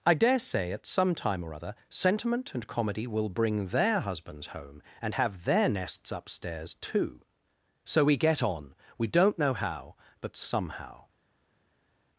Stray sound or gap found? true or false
false